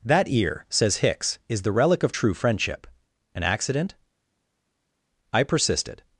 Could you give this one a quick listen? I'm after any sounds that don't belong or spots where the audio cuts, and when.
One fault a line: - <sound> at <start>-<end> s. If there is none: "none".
none